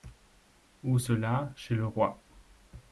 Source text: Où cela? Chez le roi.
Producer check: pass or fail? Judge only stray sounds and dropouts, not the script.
pass